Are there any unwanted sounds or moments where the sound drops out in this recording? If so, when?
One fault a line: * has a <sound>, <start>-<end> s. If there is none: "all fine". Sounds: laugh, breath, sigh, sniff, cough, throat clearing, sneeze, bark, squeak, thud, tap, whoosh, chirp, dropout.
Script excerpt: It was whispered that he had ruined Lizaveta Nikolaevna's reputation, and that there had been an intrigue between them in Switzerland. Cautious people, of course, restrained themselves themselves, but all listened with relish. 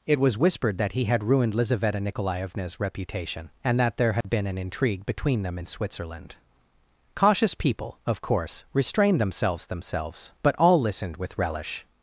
* has a dropout, 4.2-4.2 s